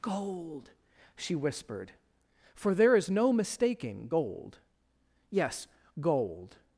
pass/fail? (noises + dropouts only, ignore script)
pass